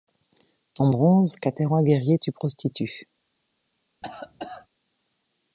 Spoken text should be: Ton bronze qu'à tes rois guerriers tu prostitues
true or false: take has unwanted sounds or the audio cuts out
true